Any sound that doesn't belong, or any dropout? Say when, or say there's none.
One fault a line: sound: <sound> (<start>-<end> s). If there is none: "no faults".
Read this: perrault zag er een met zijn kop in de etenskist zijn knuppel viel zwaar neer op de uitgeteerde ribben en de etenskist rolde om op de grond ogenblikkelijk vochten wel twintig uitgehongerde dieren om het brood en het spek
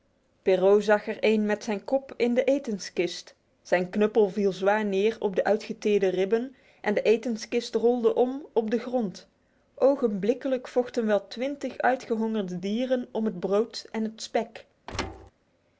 sound: thud (14.9-15.3 s)